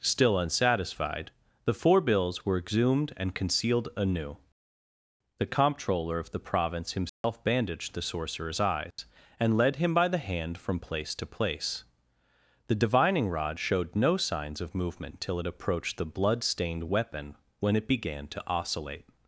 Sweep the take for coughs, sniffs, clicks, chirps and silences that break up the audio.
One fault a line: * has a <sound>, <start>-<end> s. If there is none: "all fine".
* has a dropout, 7.1-7.2 s
* has a dropout, 8.9-9.0 s